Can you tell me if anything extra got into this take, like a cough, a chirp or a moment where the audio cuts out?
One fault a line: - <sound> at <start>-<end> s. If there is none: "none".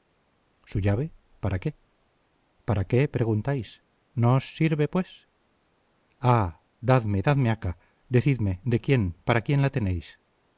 none